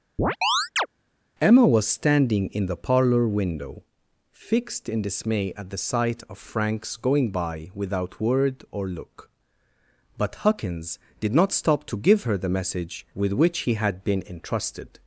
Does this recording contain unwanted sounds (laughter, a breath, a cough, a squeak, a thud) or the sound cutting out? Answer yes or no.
yes